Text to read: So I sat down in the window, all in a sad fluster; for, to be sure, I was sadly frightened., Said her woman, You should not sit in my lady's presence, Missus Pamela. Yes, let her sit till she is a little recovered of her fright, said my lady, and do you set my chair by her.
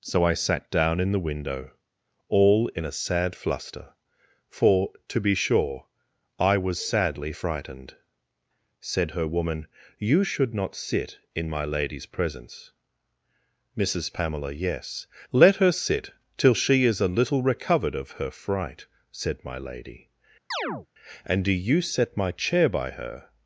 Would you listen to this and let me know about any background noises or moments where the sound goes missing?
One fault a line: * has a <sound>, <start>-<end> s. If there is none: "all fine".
* has a chirp, 20.5-20.9 s